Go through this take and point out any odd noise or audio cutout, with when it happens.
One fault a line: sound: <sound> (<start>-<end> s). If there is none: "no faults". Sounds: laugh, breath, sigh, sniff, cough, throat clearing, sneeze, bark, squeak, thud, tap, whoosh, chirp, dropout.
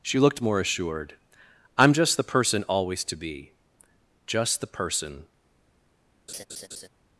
sound: laugh (6.3-6.9 s)